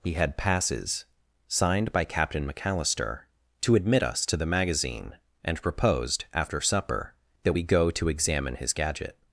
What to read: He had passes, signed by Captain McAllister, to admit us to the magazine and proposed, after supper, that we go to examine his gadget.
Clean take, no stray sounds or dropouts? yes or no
yes